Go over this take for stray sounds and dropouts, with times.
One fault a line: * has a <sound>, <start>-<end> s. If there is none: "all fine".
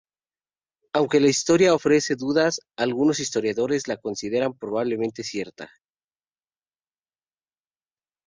all fine